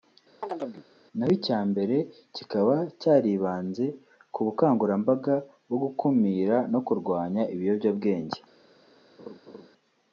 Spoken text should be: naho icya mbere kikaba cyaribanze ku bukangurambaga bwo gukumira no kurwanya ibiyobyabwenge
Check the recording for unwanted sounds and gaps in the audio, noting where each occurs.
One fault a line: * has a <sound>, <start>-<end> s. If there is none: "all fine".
* has a chirp, 0.4-0.9 s
* has a laugh, 9.2-9.7 s